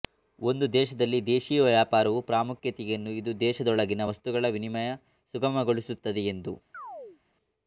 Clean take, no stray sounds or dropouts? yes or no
no